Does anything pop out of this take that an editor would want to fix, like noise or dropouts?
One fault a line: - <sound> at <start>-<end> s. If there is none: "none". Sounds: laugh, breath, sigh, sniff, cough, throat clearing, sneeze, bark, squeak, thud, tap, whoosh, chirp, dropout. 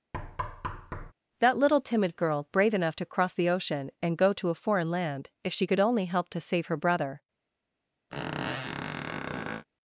- thud at 0.1-1.1 s
- squeak at 8.1-9.7 s